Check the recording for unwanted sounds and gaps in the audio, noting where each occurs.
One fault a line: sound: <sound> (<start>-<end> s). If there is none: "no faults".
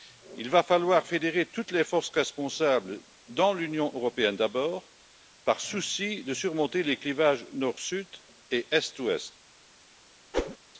sound: whoosh (10.3-10.6 s)